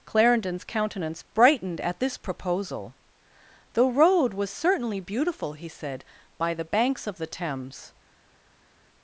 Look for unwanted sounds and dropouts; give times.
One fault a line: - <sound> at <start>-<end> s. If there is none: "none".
none